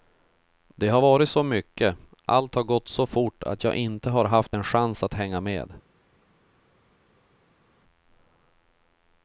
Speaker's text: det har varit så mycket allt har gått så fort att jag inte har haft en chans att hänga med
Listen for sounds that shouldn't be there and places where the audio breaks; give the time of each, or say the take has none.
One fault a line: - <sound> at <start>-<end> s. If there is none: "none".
none